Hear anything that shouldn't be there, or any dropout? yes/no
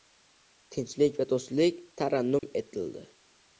yes